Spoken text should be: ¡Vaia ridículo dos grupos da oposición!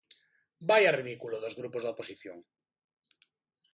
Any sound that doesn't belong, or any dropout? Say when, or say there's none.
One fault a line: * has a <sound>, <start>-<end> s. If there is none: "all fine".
all fine